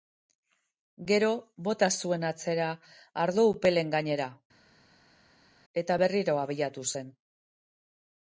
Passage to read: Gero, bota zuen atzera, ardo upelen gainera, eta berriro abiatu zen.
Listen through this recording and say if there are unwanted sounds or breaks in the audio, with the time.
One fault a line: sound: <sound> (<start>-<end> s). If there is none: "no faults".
no faults